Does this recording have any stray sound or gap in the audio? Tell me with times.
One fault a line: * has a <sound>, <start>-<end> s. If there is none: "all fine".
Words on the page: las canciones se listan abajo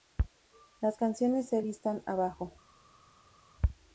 all fine